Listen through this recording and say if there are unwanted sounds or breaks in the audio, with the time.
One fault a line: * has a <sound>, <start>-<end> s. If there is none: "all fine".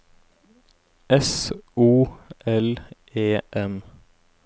all fine